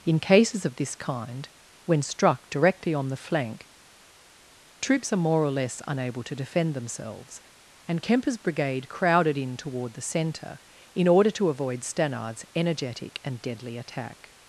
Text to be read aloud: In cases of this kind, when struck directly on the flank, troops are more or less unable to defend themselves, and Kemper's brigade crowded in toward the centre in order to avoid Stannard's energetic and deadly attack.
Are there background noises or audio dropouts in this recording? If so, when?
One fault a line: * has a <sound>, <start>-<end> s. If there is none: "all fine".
all fine